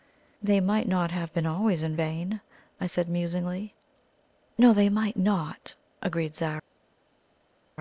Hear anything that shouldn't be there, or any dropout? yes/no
no